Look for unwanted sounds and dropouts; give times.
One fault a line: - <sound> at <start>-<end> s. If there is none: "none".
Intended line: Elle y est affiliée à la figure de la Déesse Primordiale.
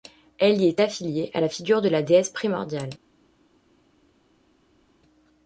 none